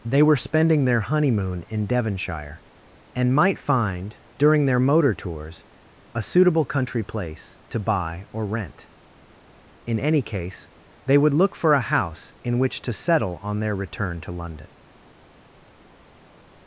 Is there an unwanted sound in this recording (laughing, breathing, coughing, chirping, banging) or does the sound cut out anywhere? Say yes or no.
no